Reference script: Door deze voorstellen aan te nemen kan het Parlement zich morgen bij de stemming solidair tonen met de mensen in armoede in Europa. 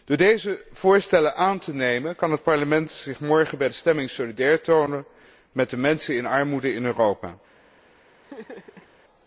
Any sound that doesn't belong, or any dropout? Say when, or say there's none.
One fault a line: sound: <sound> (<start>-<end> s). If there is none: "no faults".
sound: laugh (8.2-8.9 s)